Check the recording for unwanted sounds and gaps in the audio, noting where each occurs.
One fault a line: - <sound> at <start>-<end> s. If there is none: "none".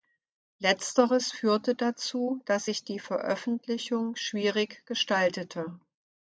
none